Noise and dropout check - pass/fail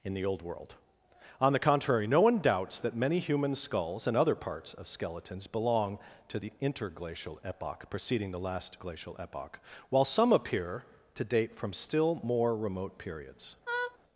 fail